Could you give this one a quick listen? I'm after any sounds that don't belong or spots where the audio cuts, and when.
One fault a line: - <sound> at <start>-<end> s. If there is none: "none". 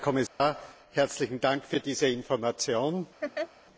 - dropout at 0.3-0.4 s
- laugh at 3.2-3.5 s